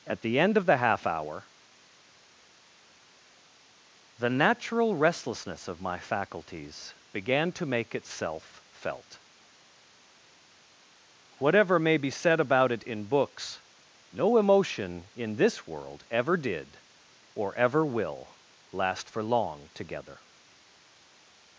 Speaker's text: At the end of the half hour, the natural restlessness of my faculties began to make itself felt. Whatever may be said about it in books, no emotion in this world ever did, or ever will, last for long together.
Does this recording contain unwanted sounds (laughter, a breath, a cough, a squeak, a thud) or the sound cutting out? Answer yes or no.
no